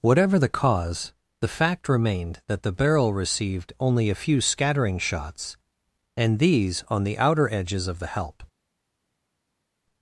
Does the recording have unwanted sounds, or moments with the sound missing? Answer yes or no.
no